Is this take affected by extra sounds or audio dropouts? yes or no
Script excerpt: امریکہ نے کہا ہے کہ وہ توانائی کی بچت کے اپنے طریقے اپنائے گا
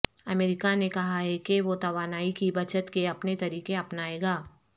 no